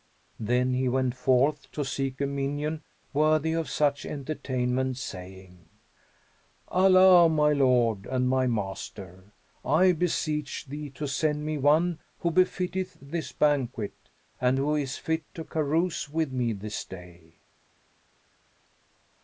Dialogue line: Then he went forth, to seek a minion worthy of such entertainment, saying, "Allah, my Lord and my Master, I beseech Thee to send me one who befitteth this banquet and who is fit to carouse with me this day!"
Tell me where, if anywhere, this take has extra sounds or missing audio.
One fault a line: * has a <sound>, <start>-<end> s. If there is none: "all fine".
all fine